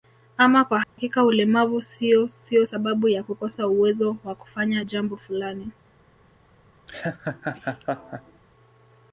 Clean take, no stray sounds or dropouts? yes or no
no